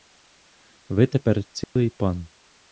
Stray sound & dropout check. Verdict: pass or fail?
fail